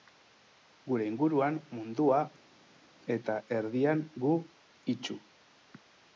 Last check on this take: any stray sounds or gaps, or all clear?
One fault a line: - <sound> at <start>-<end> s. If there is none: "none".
none